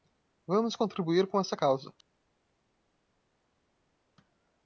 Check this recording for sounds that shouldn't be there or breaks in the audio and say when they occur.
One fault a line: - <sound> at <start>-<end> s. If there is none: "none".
none